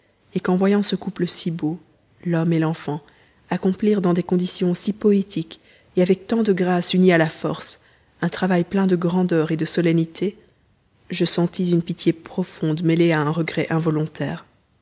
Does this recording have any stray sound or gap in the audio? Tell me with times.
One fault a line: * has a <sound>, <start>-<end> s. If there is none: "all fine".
all fine